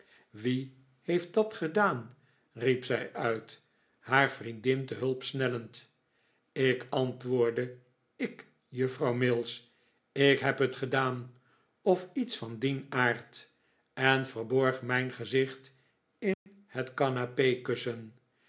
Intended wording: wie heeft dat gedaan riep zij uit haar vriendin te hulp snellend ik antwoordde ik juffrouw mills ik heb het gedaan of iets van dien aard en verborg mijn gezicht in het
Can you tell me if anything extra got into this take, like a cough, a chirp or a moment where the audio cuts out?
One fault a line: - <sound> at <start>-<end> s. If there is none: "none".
- dropout at 16.3-16.5 s